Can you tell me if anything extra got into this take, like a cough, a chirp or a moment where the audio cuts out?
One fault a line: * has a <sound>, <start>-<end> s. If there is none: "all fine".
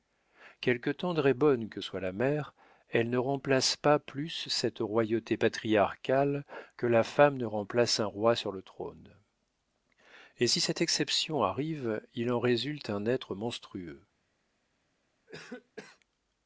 * has a cough, 15.3-16.0 s